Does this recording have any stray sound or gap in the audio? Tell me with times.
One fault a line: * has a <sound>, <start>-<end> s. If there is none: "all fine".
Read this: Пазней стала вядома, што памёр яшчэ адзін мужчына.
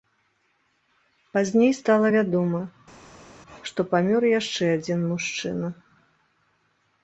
all fine